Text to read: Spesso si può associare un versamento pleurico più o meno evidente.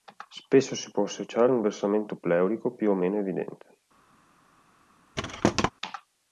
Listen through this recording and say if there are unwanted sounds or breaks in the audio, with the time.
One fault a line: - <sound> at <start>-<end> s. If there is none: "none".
- thud at 5.2-5.7 s